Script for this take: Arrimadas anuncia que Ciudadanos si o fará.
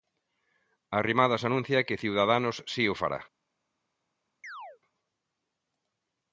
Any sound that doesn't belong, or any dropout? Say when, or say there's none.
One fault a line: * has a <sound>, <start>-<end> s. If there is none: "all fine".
* has a chirp, 4.4-4.8 s